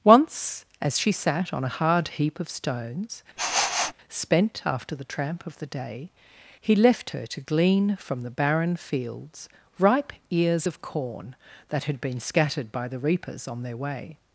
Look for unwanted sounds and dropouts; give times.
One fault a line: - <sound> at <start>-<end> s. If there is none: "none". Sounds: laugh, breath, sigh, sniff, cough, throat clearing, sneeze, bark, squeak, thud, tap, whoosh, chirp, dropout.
- sniff at 3.4-3.9 s